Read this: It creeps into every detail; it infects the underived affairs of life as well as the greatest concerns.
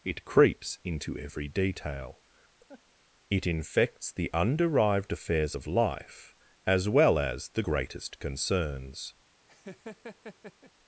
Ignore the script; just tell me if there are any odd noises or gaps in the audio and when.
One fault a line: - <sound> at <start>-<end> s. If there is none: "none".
- laugh at 2.7-2.8 s
- laugh at 9.5-10.7 s